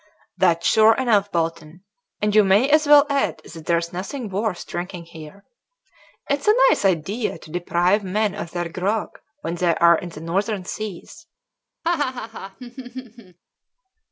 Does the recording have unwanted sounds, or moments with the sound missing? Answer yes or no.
yes